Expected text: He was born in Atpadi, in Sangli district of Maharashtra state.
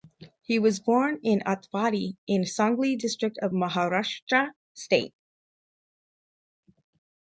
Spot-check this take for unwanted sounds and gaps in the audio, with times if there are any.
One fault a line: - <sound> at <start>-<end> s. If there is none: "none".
none